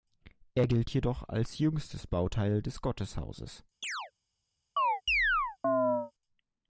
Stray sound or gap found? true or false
true